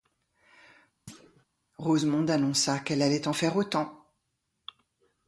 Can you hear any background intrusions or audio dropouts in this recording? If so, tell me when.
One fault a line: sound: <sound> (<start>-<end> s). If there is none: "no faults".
sound: thud (1.1-1.5 s)